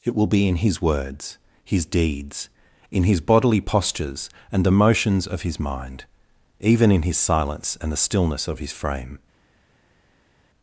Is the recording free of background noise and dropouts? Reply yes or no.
yes